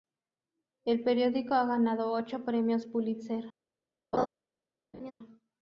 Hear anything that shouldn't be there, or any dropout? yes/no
yes